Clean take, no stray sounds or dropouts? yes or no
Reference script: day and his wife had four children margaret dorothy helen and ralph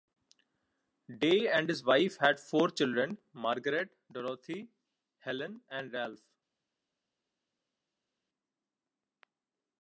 yes